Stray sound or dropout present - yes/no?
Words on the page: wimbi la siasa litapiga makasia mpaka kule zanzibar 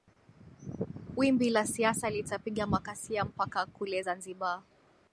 no